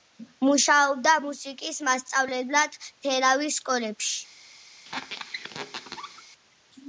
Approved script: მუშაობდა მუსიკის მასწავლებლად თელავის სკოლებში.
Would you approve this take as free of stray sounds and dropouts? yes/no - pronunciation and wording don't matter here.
no